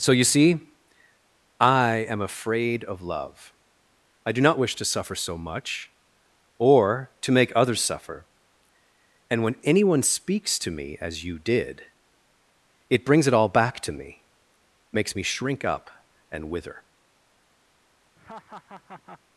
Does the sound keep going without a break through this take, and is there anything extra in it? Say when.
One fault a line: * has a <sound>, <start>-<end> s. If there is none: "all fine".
* has a laugh, 18.2-19.2 s